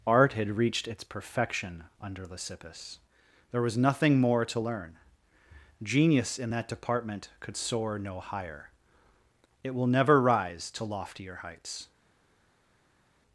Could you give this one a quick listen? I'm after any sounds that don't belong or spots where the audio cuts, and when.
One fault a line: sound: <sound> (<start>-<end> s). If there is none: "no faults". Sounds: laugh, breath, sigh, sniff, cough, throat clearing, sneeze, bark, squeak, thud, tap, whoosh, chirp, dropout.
no faults